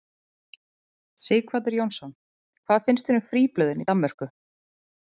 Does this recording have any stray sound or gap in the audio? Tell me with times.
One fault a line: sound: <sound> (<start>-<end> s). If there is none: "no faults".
no faults